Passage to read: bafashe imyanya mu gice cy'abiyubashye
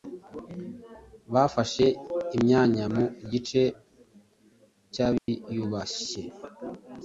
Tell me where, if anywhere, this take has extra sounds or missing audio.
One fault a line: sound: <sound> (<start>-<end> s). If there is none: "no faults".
sound: dropout (5.2-5.3 s)